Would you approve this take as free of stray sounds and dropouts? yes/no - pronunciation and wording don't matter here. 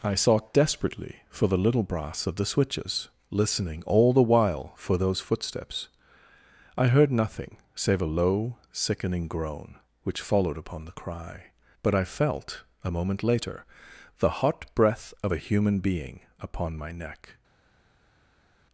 yes